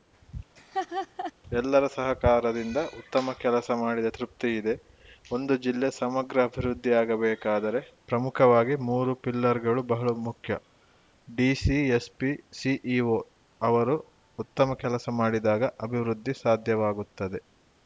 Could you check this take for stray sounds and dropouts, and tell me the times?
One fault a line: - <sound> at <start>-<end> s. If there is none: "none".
- laugh at 0.6-1.3 s